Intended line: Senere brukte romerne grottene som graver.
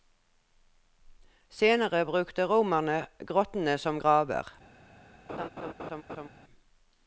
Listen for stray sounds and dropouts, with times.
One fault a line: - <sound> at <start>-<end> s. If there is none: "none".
- laugh at 5.3-6.3 s